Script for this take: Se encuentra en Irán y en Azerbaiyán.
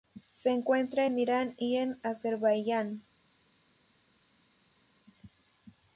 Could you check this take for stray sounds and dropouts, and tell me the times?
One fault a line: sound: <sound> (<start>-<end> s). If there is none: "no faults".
no faults